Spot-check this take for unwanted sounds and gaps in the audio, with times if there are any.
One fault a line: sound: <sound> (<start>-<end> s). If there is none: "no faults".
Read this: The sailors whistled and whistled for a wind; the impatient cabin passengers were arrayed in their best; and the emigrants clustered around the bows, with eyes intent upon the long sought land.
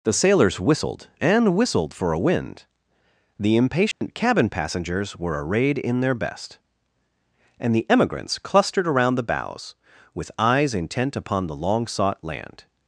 sound: dropout (3.9-4.0 s)